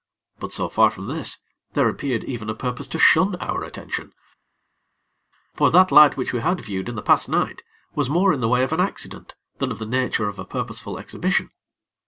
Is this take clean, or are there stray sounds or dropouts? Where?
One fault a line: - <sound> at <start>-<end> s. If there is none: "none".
none